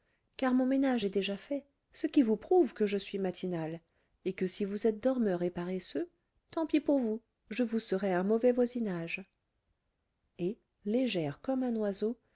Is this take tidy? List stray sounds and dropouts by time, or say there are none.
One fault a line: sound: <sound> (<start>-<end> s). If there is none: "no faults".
no faults